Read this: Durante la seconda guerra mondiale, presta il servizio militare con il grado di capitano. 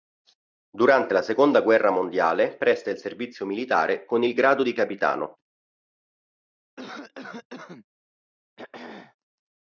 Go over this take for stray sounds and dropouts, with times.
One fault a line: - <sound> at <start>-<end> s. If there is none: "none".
- cough at 6.8-7.9 s
- throat clearing at 8.6-9.2 s